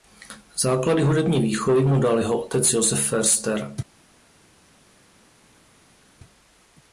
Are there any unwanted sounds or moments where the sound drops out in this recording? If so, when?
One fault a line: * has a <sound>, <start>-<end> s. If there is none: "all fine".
all fine